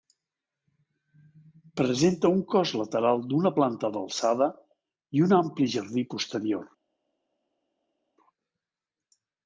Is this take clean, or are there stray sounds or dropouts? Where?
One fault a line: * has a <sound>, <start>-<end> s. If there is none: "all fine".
all fine